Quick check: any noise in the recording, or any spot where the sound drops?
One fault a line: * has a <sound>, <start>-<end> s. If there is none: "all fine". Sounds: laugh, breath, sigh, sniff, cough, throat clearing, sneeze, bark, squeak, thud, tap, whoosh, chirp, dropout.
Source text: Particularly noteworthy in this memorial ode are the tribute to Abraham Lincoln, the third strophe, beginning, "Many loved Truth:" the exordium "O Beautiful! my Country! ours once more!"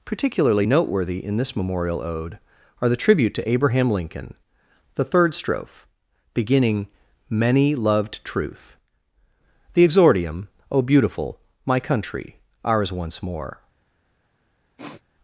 * has a sniff, 14.8-15.0 s